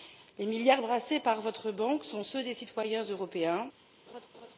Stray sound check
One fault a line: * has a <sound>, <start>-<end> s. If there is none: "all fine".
* has a laugh, 4.1-4.6 s